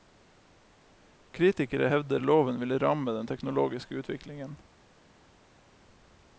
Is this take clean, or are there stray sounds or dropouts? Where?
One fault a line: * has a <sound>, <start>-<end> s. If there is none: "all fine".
all fine